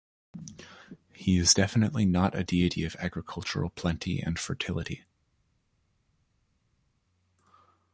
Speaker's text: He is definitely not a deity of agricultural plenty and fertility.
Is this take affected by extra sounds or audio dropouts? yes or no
no